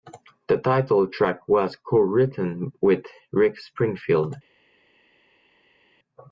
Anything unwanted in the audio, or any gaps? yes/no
no